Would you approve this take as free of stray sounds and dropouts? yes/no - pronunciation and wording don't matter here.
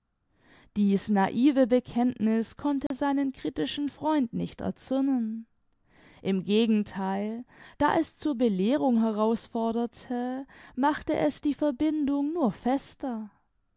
no